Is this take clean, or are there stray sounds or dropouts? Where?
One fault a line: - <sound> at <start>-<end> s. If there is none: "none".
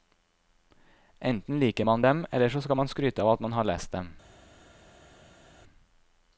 none